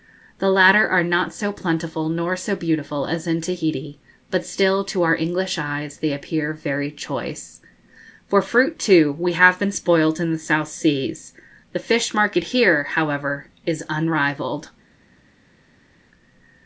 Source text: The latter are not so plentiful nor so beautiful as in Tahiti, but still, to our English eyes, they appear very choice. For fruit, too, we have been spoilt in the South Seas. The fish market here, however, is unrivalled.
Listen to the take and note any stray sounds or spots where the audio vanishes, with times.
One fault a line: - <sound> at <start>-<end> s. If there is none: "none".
none